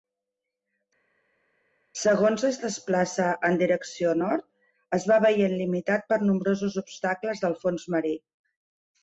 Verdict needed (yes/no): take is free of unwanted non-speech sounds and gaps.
yes